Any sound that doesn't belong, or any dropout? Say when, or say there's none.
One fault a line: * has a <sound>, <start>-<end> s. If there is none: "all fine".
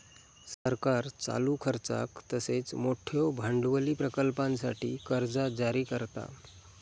* has a dropout, 0.5-0.7 s